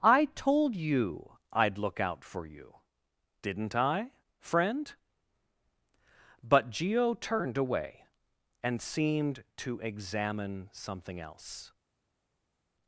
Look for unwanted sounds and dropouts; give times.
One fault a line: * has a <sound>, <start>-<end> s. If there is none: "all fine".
all fine